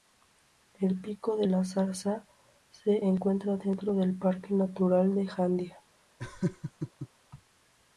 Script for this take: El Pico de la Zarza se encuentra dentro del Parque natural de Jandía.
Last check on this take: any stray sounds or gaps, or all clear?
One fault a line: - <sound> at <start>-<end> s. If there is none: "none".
- laugh at 6.2-7.1 s